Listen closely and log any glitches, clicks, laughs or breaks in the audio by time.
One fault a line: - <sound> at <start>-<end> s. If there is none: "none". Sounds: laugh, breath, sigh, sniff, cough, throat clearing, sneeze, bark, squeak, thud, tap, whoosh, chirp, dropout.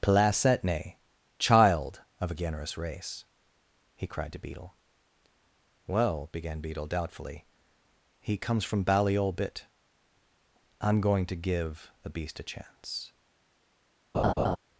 - laugh at 14.1-14.6 s